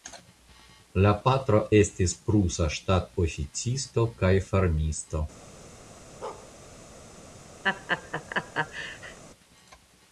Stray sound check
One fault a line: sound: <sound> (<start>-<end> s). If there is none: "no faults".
sound: bark (6.2-6.5 s)
sound: laugh (7.6-9.2 s)